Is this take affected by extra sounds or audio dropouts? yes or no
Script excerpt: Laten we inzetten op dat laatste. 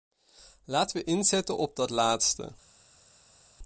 no